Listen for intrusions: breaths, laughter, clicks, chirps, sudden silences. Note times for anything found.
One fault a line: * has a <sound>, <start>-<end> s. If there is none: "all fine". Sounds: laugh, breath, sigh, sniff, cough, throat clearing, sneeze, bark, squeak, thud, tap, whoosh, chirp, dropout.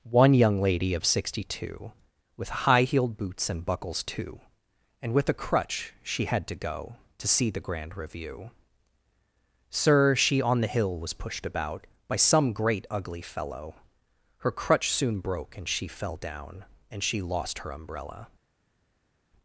all fine